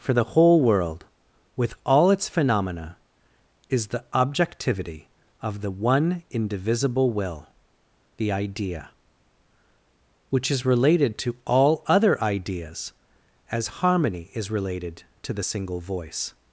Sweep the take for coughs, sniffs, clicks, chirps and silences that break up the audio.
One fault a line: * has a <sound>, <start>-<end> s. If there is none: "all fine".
all fine